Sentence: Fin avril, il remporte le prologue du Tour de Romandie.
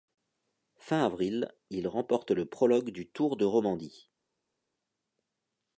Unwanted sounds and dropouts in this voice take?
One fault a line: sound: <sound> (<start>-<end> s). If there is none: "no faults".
no faults